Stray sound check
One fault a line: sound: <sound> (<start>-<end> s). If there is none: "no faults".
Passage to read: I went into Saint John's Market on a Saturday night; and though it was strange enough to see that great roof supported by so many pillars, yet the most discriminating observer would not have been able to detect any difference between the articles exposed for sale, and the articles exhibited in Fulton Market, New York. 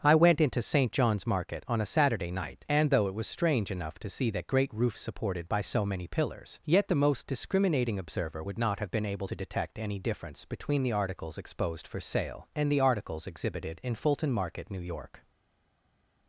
no faults